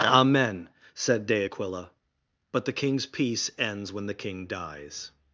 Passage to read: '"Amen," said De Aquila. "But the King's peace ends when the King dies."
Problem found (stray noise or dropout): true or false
false